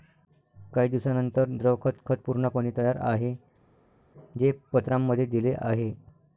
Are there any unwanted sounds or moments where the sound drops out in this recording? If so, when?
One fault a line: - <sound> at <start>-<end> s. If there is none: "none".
none